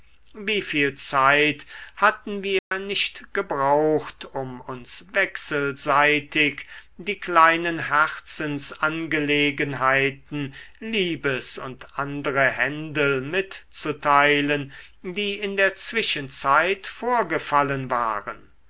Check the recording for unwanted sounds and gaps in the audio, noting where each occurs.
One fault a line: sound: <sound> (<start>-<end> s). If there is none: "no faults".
sound: dropout (2.6-2.7 s)